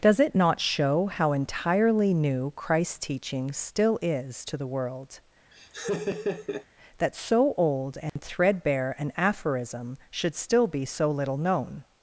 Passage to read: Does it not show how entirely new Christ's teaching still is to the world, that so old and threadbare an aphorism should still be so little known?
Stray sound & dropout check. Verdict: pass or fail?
fail